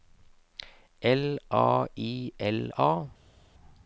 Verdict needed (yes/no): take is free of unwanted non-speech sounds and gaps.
yes